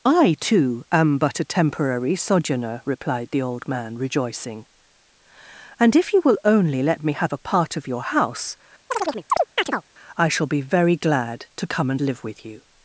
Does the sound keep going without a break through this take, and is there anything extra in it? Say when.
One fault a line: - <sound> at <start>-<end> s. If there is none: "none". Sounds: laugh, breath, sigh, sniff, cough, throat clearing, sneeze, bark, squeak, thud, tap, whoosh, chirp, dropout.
- chirp at 8.9-9.8 s